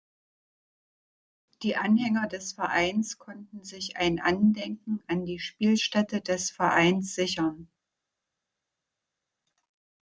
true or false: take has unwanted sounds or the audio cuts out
false